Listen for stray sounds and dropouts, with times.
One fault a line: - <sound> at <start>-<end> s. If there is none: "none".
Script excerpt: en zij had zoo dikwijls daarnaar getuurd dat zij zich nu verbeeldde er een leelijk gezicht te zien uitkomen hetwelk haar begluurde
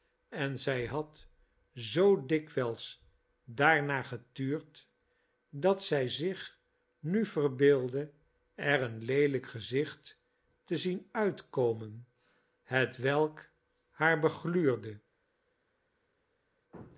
none